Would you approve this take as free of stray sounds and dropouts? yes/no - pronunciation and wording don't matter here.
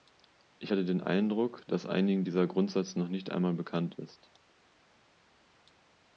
yes